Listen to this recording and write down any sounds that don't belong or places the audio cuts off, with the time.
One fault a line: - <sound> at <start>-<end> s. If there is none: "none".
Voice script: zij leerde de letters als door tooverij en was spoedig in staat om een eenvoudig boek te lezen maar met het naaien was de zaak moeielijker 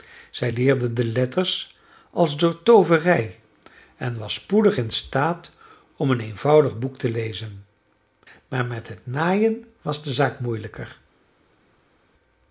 none